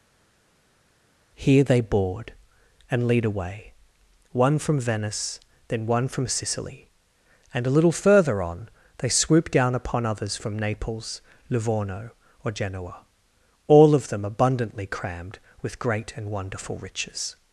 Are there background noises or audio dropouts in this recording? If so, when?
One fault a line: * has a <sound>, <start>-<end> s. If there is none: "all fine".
all fine